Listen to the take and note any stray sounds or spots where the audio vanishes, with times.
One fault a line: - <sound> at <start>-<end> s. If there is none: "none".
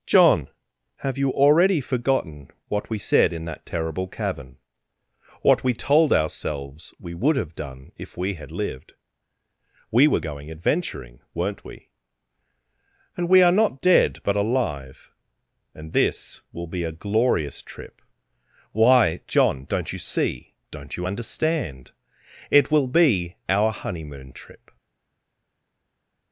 none